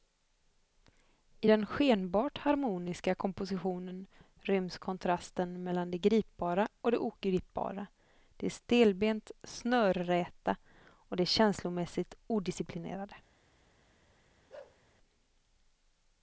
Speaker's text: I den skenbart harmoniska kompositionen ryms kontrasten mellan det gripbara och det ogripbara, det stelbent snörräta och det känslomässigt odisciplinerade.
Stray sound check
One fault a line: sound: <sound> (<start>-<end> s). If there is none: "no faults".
sound: bark (14.5-14.8 s)